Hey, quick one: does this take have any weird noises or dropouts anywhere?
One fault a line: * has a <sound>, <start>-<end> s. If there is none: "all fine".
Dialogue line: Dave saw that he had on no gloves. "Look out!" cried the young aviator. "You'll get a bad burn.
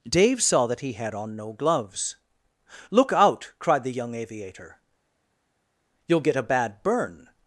all fine